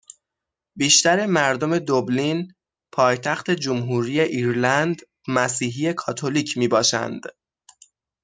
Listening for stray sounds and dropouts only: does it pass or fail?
pass